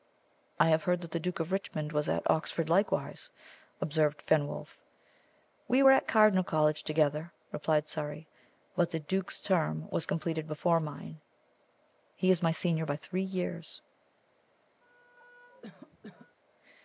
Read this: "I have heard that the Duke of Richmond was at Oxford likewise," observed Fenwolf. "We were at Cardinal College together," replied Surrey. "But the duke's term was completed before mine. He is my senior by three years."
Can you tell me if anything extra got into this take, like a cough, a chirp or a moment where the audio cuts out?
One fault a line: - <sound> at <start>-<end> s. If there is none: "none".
- cough at 14.8-16.4 s